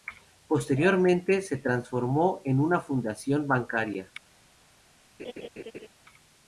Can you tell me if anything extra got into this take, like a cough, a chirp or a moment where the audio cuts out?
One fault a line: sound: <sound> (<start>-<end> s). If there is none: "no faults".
sound: laugh (5.2-5.9 s)